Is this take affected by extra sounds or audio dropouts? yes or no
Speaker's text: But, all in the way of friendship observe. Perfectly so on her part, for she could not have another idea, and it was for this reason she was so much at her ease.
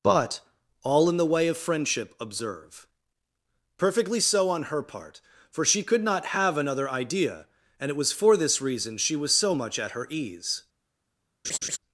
yes